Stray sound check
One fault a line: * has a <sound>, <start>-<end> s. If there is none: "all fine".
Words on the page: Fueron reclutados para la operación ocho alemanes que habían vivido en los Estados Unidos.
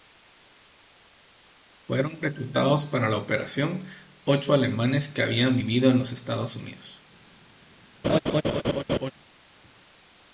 * has a laugh, 8.0-9.1 s